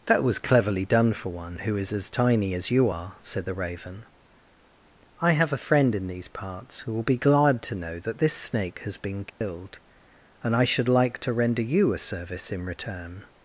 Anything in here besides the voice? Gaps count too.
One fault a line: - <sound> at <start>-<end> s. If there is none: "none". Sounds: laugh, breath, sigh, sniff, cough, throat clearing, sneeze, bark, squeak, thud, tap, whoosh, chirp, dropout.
- dropout at 9.3-9.4 s